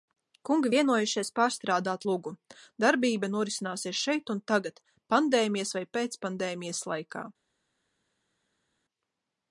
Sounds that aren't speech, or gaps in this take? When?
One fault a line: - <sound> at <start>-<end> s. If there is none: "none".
none